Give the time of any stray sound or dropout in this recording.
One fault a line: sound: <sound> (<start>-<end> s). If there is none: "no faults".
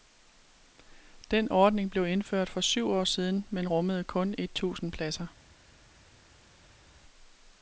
no faults